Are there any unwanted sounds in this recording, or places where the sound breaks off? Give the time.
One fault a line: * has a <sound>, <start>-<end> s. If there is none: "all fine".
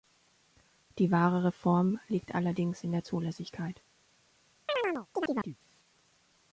* has a chirp, 4.7-5.6 s